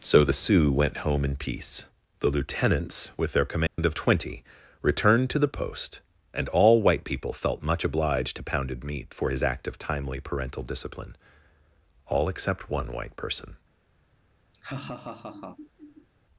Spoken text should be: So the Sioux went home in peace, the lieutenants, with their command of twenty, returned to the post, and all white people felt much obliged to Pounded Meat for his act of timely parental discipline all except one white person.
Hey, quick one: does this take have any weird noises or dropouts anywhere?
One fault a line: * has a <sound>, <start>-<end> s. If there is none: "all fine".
* has a dropout, 3.7-3.8 s
* has a laugh, 14.5-16.1 s